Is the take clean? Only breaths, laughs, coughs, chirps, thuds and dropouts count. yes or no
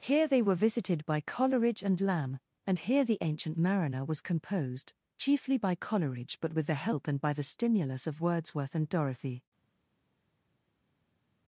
yes